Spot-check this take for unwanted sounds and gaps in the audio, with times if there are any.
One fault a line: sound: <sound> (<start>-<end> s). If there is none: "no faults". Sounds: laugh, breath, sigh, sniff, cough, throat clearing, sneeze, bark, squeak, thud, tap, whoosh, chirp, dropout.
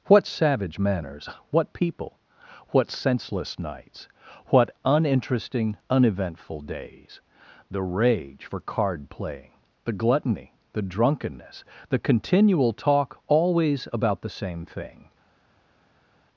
no faults